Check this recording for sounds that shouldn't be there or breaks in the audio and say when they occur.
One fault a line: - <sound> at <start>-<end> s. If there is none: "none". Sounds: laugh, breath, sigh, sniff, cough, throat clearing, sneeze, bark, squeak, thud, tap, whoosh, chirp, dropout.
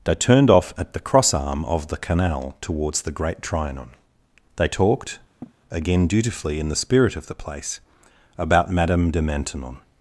- sniff at 5.4-5.5 s